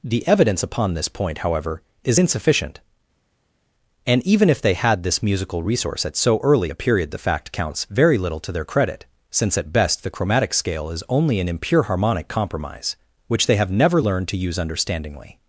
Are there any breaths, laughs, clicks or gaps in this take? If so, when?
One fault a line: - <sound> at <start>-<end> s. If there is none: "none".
none